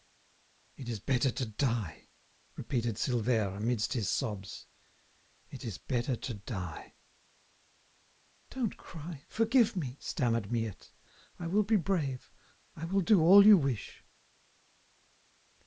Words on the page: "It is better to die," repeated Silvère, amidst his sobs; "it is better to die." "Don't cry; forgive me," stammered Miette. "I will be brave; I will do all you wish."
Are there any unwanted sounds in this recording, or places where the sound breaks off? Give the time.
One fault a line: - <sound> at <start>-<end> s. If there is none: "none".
none